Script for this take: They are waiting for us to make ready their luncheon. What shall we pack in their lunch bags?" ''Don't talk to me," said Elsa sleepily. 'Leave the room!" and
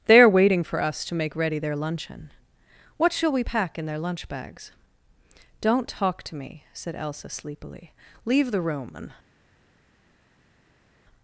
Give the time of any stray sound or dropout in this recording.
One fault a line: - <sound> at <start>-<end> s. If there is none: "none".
none